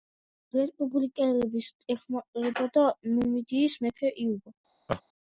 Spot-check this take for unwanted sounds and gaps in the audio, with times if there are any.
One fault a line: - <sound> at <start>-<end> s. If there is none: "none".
- laugh at 4.9-5.0 s